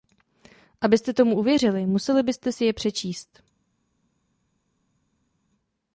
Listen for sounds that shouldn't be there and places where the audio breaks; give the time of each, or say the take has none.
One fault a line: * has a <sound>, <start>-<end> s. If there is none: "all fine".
all fine